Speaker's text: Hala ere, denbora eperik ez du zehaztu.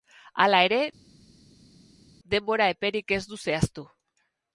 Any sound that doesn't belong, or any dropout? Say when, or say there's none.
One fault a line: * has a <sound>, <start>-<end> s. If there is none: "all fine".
all fine